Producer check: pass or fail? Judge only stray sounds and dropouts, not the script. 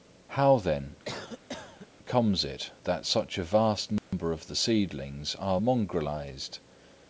fail